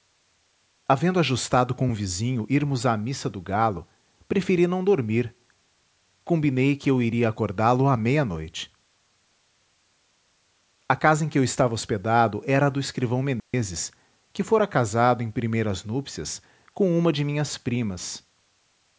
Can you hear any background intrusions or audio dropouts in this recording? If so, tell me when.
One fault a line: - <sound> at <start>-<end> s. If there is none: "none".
- dropout at 13.4-13.5 s